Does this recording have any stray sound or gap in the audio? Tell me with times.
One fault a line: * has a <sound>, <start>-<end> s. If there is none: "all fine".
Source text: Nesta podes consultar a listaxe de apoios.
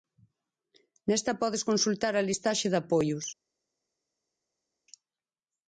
all fine